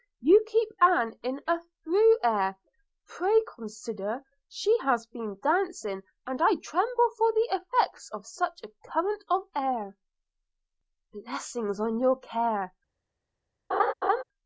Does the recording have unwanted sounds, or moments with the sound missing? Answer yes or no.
yes